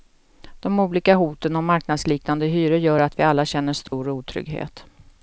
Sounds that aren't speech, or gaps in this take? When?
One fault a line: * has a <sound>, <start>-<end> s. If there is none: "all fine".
* has a dropout, 3.9-3.9 s